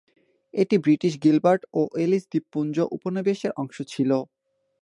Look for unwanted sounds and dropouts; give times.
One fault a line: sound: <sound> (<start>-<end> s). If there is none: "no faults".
no faults